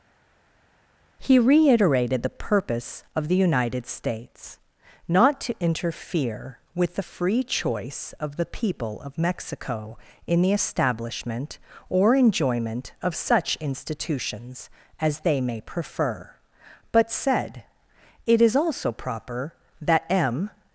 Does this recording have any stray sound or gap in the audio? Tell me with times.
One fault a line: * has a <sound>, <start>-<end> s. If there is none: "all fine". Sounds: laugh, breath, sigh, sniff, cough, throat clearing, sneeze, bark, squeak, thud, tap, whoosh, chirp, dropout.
all fine